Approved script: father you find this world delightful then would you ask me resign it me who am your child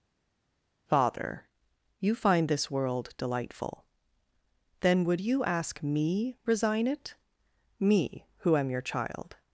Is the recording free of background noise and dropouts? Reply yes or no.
yes